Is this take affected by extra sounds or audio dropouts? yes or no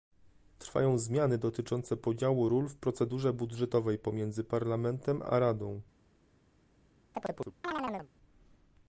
yes